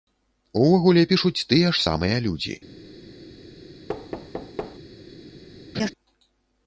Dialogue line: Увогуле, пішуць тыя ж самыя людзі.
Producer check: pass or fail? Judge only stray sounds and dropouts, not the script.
fail